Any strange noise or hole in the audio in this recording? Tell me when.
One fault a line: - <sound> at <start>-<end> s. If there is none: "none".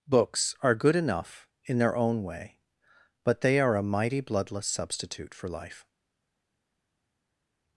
none